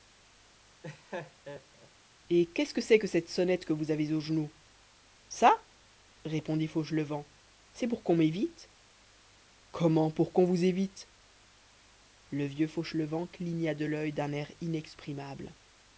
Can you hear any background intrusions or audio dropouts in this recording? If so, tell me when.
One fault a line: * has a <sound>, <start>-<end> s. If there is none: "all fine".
* has a laugh, 0.8-1.9 s